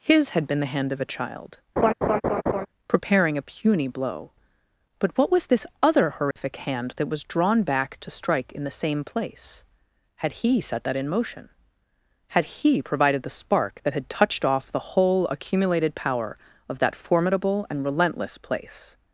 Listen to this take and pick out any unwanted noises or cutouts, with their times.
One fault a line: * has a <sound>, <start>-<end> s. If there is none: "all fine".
* has a laugh, 1.8-2.7 s
* has a dropout, 6.3-6.4 s